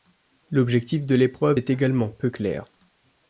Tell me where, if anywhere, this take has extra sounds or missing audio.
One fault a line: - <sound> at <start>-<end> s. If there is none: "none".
none